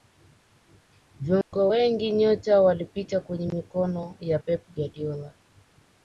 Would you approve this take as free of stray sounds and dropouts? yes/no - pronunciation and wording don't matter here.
no